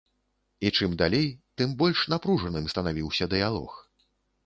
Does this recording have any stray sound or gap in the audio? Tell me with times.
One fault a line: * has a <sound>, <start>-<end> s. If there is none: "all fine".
all fine